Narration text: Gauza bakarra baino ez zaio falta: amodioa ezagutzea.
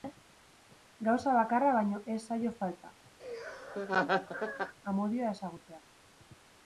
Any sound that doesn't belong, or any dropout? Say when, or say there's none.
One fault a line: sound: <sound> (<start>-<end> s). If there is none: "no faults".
sound: laugh (3.2-4.7 s)